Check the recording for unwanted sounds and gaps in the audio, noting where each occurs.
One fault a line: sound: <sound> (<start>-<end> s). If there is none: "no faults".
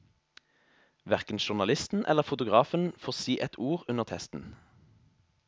no faults